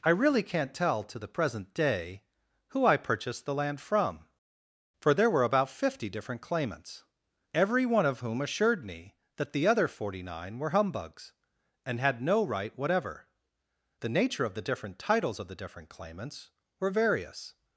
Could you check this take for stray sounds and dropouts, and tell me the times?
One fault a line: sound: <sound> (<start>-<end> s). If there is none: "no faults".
no faults